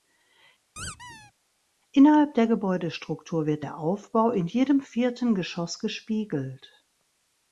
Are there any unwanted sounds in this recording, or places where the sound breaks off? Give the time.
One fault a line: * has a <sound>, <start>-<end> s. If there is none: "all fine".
* has a squeak, 0.8-1.3 s